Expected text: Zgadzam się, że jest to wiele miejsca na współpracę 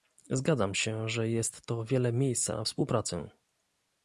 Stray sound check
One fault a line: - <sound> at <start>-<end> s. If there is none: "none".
none